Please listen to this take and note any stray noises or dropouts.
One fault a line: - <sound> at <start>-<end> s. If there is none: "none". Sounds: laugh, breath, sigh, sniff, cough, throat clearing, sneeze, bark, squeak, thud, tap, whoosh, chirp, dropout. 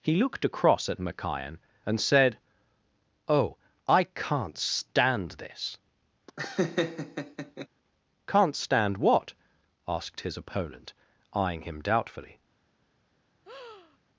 - laugh at 6.3-7.7 s
- breath at 13.4-14.0 s